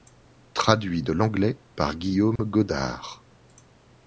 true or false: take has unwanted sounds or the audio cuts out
true